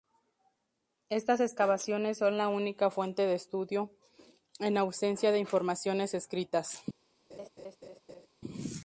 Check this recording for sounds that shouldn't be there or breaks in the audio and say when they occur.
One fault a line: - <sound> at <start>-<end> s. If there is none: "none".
- laugh at 7.3-8.3 s